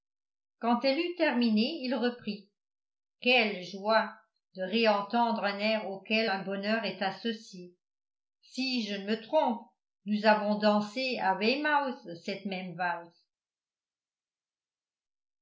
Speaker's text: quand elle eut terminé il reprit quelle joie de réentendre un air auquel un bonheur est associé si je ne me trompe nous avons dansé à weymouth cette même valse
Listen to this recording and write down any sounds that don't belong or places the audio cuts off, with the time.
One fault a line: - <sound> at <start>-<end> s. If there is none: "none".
none